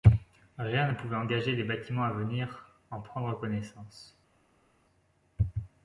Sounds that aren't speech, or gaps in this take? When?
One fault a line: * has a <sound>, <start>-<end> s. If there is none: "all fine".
all fine